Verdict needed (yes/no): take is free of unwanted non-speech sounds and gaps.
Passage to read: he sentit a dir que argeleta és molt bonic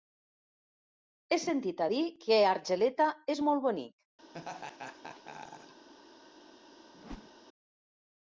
no